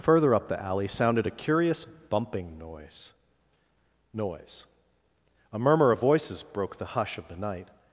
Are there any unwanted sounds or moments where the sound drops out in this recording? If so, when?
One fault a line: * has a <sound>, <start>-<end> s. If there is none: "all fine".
all fine